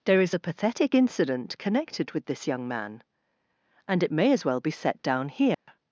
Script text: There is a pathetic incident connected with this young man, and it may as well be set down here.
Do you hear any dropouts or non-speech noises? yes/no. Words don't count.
yes